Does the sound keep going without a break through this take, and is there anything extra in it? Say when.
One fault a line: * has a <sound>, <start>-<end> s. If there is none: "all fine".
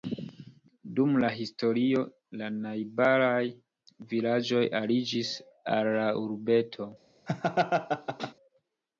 * has a laugh, 7.3-8.3 s